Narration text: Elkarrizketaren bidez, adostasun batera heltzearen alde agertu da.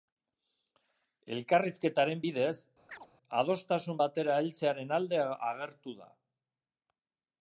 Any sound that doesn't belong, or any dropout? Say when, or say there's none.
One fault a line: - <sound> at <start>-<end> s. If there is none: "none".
- chirp at 2.9-3.1 s